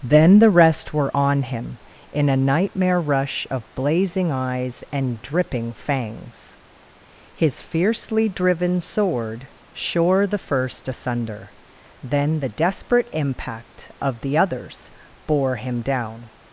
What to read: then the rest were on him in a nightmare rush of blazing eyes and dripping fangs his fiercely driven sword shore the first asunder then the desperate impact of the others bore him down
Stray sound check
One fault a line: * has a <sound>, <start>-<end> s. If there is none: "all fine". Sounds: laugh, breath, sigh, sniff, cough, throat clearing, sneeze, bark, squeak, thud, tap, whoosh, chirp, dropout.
all fine